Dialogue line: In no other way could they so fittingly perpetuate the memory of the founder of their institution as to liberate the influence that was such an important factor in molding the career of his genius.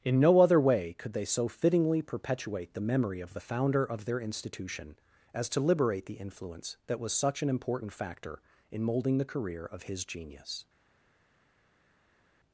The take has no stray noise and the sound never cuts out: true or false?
true